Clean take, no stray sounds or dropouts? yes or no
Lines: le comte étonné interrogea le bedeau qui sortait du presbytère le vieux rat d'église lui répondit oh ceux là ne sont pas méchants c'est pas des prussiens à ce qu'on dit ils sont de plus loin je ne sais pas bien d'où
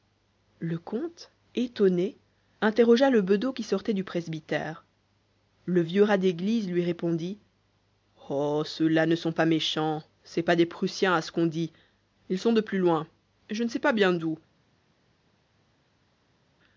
yes